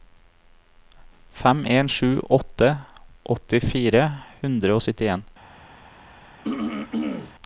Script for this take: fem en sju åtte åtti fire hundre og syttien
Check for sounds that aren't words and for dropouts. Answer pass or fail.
fail